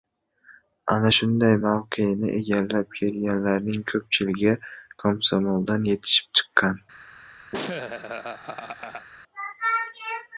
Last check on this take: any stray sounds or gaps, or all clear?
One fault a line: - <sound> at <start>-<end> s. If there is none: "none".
- laugh at 7.5-9.1 s